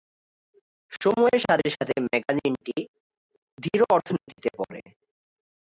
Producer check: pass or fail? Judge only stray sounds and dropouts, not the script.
fail